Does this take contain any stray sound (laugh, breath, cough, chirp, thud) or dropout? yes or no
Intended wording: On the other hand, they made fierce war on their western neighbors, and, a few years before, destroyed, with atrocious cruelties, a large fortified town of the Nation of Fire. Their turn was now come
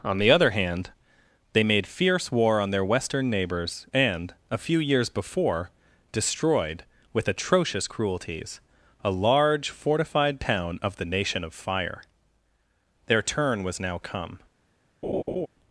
yes